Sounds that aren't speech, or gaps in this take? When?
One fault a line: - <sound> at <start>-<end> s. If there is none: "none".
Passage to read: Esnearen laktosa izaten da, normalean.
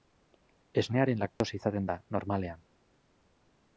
- dropout at 1.3-1.4 s